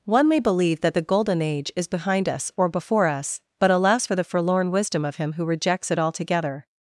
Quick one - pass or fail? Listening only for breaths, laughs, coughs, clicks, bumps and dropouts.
pass